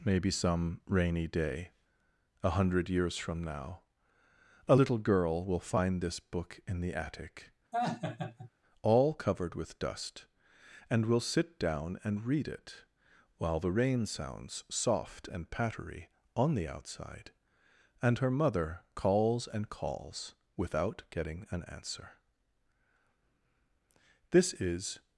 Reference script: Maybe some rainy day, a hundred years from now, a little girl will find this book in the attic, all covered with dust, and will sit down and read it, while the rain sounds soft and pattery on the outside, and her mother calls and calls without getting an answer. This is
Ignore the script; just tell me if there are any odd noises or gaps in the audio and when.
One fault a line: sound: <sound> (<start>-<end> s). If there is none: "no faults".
sound: laugh (7.7-8.5 s)